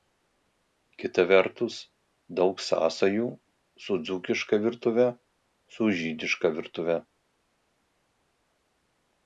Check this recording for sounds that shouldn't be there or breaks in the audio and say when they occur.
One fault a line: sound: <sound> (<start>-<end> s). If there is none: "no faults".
no faults